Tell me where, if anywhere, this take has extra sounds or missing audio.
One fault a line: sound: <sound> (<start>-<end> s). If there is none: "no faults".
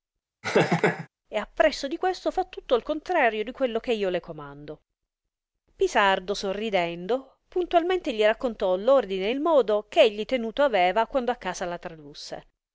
sound: laugh (0.4-1.1 s)